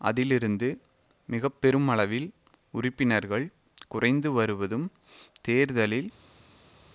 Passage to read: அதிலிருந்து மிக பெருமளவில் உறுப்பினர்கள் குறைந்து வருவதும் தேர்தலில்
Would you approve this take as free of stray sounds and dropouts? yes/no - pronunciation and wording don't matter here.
yes